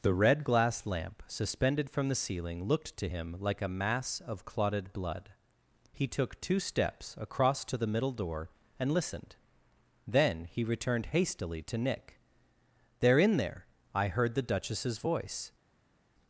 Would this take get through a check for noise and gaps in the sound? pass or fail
pass